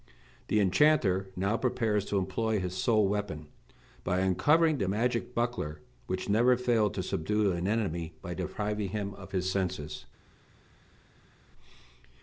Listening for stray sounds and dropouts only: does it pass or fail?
pass